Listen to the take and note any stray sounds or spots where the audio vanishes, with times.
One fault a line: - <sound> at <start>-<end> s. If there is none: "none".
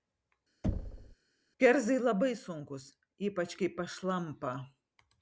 - thud at 0.6-1.2 s